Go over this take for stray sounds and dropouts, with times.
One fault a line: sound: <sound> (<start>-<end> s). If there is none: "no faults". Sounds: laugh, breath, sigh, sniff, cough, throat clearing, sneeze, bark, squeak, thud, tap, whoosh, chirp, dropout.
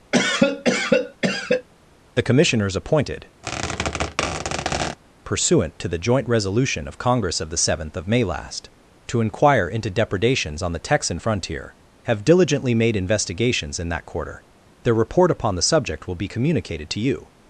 sound: cough (0.1-1.7 s)
sound: squeak (3.4-5.0 s)